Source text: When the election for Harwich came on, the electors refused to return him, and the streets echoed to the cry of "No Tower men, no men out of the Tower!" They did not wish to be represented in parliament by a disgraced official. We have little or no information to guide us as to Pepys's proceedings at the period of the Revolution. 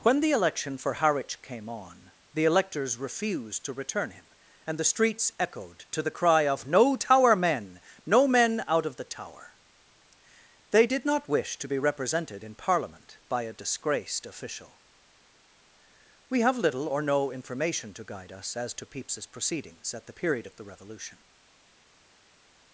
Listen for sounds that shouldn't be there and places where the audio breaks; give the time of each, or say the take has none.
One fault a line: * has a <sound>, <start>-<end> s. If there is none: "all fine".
all fine